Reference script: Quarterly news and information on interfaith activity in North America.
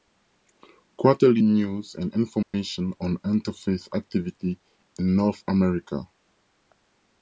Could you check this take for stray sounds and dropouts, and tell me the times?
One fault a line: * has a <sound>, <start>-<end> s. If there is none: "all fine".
* has a dropout, 2.4-2.5 s